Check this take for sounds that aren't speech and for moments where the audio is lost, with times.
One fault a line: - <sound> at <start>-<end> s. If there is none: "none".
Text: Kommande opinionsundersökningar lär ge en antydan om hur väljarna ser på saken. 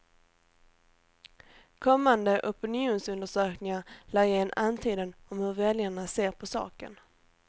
none